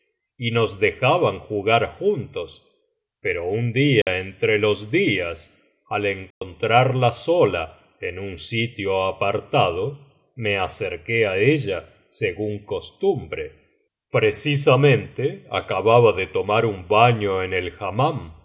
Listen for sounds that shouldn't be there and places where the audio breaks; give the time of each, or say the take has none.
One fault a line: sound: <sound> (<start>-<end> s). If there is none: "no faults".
sound: dropout (4.0-4.1 s)
sound: dropout (6.3-6.4 s)